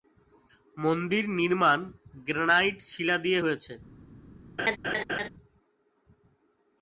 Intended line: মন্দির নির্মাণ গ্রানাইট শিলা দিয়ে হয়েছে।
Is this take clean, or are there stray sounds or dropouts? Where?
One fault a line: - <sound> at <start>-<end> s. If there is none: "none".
- laugh at 4.6-5.3 s